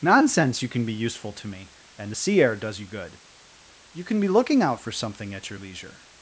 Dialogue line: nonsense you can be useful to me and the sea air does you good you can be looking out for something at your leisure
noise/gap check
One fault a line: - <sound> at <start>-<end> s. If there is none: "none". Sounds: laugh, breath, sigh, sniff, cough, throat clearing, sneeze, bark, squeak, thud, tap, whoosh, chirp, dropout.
none